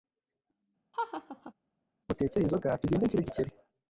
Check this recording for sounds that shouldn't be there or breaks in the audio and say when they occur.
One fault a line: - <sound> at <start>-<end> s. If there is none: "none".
- laugh at 0.9-1.5 s